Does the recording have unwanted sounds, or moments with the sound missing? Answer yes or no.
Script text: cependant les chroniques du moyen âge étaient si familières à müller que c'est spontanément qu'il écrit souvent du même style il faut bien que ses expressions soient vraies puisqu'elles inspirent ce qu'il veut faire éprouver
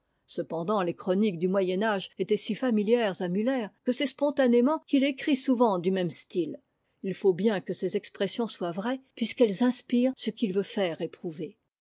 no